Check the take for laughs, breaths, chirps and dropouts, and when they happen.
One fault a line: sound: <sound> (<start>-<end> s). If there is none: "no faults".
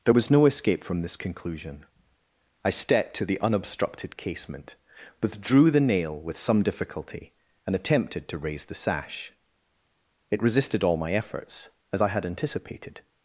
no faults